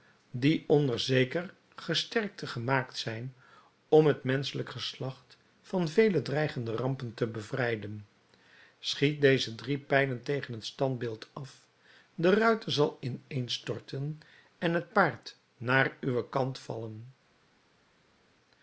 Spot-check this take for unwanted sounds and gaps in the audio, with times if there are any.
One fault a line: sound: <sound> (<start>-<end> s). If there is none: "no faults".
no faults